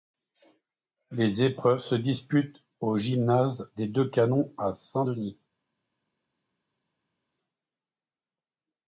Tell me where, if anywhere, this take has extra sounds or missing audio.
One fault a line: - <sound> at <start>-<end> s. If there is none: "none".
none